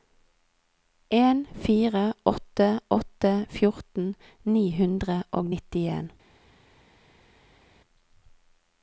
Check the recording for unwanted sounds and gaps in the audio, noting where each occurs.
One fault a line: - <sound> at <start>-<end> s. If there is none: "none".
none